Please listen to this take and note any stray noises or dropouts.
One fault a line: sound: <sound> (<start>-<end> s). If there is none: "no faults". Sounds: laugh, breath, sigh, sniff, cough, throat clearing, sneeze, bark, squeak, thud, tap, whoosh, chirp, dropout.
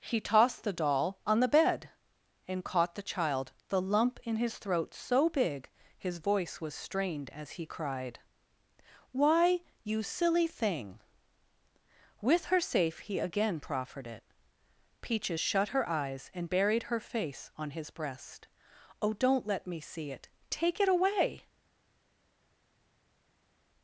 no faults